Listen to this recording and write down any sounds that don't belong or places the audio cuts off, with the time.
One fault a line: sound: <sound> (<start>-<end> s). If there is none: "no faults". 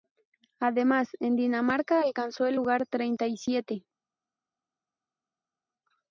no faults